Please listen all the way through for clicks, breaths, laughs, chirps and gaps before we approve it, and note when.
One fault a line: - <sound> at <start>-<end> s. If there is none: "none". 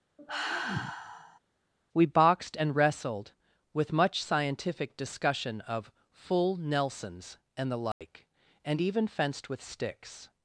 - sigh at 0.2-1.4 s
- dropout at 7.9-8.0 s